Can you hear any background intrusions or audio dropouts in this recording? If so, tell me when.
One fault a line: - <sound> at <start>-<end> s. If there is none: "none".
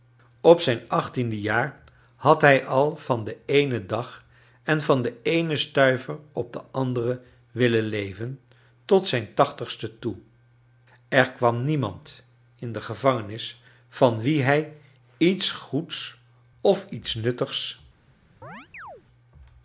- chirp at 18.4-19.0 s